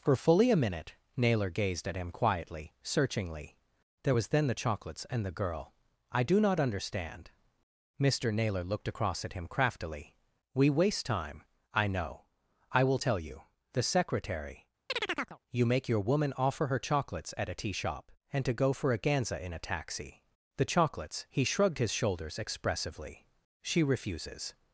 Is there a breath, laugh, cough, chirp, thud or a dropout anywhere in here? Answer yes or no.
yes